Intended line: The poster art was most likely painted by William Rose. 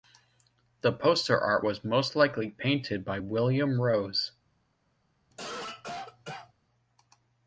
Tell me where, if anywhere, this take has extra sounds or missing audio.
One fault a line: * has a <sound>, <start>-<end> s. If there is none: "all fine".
* has a cough, 5.3-6.5 s